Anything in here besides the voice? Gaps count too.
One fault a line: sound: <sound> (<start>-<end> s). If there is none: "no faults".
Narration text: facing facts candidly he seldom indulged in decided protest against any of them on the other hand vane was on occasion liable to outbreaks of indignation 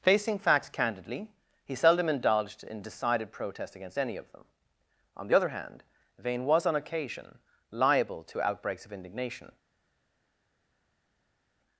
no faults